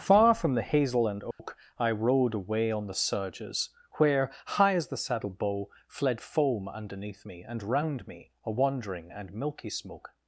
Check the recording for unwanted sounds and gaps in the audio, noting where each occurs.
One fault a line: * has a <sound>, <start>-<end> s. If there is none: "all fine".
* has a dropout, 1.3-1.4 s